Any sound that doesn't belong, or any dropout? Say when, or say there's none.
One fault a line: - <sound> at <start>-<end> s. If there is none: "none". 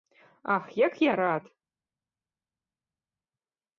none